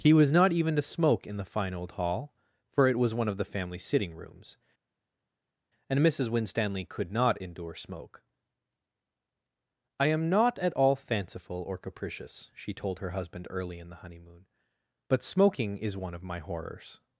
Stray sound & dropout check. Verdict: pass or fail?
pass